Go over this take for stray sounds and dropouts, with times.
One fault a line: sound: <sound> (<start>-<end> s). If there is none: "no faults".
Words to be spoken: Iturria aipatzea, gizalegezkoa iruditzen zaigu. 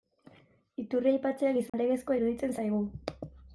sound: dropout (1.7-1.7 s)